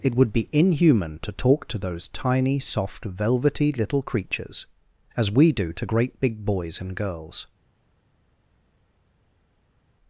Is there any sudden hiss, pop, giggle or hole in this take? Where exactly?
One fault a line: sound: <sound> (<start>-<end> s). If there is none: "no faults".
no faults